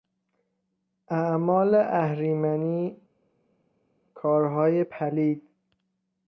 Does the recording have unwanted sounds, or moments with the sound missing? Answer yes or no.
no